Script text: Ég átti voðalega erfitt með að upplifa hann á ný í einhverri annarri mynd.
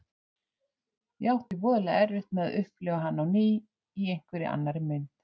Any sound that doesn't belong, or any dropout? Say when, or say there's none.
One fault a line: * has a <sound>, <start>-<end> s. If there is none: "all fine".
all fine